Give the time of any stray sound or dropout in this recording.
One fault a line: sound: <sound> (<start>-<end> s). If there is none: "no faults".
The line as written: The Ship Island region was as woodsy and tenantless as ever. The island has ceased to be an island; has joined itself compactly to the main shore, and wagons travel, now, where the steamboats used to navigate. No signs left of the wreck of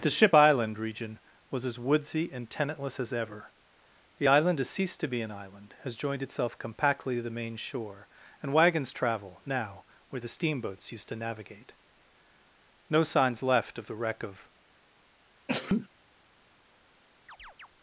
sound: sneeze (15.5-15.9 s)
sound: chirp (17.3-17.7 s)